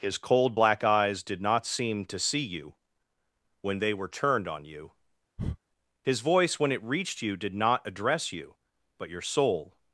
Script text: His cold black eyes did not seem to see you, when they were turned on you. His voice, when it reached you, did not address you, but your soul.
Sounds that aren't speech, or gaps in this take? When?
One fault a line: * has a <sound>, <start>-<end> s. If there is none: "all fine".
* has a breath, 5.4-5.6 s